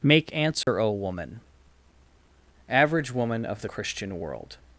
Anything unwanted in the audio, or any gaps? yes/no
yes